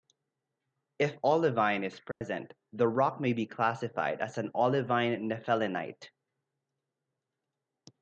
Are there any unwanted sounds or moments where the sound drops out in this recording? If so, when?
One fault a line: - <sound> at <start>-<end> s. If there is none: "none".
- dropout at 2.1-2.2 s